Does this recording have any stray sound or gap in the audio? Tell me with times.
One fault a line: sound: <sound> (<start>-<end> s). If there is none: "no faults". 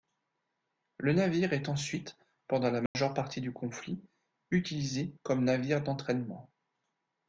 sound: dropout (2.9-3.0 s)